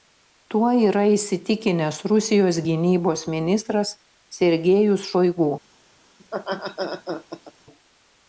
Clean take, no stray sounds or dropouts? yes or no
no